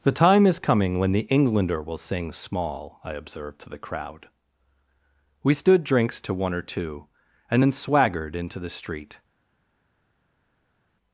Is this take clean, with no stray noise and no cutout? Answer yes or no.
yes